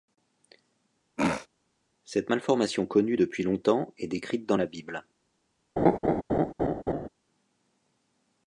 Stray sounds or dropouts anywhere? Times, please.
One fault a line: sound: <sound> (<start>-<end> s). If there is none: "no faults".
sound: throat clearing (1.2-1.5 s)
sound: laugh (5.8-7.1 s)